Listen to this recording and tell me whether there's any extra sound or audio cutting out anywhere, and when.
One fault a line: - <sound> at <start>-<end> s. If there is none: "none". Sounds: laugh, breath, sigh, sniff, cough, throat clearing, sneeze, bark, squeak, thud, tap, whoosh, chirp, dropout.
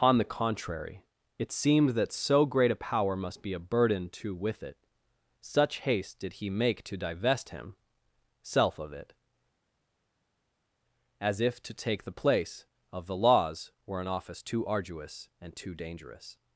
none